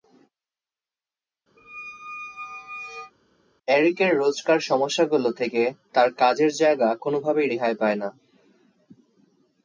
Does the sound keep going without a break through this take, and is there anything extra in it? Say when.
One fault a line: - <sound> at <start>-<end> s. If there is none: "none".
- squeak at 1.6-3.1 s